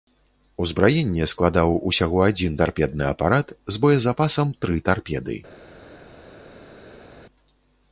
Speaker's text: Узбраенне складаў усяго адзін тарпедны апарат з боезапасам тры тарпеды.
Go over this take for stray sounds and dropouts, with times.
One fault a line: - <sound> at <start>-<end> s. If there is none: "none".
none